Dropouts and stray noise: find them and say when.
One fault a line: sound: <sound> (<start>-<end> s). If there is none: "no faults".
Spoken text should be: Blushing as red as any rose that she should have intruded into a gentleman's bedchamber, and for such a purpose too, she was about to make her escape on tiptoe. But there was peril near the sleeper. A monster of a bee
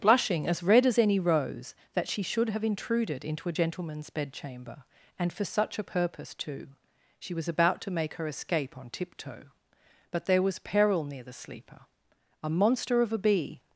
no faults